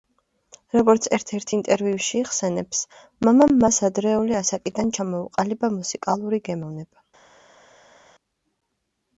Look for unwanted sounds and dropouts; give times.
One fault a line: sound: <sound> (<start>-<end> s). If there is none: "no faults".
no faults